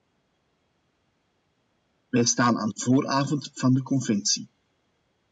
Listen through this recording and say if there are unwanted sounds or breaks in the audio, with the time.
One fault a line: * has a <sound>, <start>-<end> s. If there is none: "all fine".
all fine